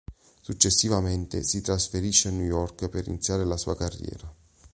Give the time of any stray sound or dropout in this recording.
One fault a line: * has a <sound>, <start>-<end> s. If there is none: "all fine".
all fine